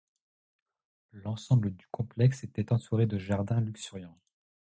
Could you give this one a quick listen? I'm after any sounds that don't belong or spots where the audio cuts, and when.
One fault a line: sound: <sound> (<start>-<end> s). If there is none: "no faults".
no faults